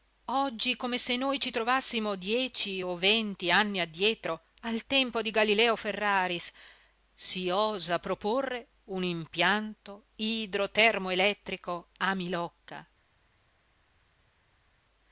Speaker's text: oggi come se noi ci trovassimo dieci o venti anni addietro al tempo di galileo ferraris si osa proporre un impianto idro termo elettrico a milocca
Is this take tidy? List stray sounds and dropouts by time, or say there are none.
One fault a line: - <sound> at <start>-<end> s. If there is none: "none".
none